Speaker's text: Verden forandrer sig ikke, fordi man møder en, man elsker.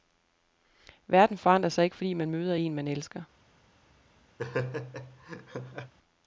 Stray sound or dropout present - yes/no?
yes